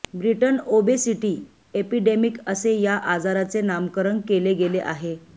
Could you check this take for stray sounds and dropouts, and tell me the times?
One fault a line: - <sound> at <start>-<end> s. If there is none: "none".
none